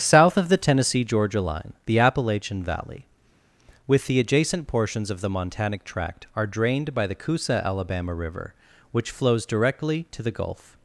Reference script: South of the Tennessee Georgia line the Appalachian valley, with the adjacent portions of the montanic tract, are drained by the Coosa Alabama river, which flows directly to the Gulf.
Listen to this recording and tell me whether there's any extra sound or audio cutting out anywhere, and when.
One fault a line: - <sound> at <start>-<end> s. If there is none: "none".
none